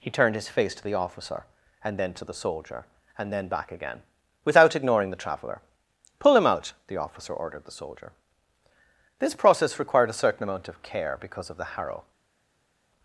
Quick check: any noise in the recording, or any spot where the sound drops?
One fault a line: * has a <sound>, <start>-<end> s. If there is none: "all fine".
all fine